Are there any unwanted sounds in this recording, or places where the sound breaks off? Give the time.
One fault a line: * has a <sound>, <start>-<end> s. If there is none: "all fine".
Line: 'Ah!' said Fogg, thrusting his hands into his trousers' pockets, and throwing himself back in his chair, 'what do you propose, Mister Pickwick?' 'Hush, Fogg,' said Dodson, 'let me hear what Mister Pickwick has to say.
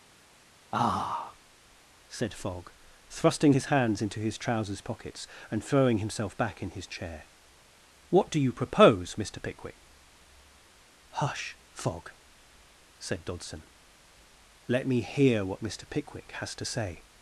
all fine